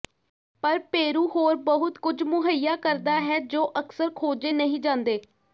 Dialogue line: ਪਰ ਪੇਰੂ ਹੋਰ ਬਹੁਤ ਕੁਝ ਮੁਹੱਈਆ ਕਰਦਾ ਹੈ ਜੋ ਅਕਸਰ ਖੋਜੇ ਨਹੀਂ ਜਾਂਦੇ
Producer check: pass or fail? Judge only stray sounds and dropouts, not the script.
pass